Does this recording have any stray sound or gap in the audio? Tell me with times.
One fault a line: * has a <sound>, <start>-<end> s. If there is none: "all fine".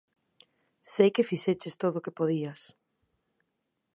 all fine